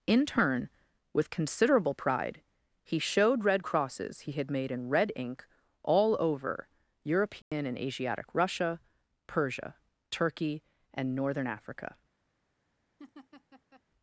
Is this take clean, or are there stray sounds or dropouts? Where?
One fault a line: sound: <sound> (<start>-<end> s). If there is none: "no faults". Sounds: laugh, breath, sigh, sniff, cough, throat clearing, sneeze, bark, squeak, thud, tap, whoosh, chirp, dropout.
sound: dropout (7.4-7.5 s)
sound: laugh (13.0-13.8 s)